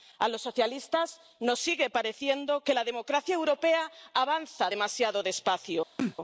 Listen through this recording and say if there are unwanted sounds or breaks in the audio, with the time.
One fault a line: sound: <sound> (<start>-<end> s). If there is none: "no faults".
sound: sneeze (6.0-6.2 s)